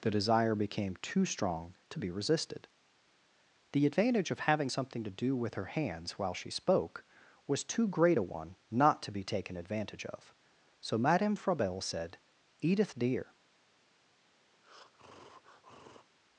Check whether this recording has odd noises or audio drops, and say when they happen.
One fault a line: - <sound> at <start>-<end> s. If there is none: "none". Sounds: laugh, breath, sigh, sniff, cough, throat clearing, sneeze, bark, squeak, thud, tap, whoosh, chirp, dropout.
- breath at 14.5-16.1 s